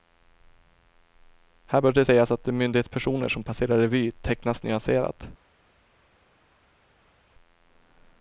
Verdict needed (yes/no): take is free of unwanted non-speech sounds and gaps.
yes